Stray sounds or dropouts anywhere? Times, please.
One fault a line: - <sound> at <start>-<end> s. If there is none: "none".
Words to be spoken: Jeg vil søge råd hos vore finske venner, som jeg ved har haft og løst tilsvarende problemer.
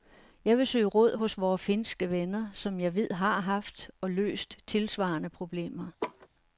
- laugh at 6.0-6.3 s